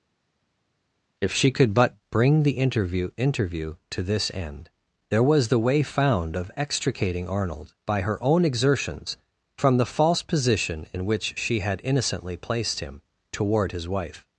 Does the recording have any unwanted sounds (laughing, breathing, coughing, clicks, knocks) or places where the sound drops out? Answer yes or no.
no